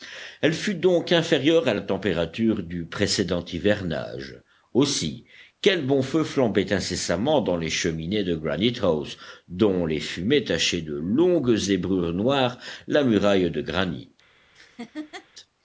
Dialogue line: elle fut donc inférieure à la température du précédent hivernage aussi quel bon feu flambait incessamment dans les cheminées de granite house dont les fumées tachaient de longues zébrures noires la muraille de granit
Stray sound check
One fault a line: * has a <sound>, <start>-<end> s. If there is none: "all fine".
* has a laugh, 14.5-15.3 s